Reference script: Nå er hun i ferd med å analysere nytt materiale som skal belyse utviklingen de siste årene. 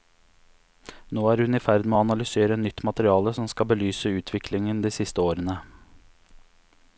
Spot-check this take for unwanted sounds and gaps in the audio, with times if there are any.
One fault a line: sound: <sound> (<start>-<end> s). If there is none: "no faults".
no faults